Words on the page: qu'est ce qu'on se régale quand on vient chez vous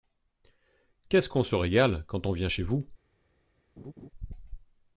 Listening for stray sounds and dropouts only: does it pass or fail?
fail